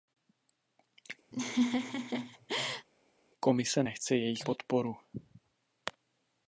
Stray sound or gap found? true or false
true